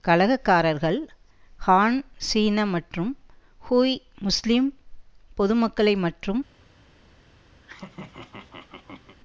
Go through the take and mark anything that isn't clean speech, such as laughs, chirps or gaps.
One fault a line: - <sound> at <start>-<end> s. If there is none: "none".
- laugh at 7.6-9.2 s